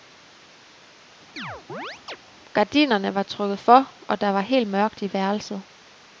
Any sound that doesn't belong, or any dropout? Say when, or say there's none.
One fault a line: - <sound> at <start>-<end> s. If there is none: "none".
- chirp at 1.4-2.2 s